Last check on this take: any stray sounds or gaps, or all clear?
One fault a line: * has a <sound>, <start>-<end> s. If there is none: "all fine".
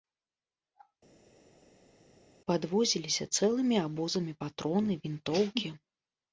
all fine